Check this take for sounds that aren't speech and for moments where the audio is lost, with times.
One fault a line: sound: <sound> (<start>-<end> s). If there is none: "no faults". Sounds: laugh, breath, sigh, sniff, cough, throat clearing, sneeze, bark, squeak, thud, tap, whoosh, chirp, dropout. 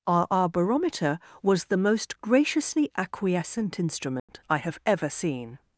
sound: dropout (4.2-4.3 s)